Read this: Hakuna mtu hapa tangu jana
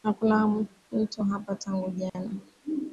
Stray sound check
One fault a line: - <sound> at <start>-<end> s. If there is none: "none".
- dropout at 2.1-2.1 s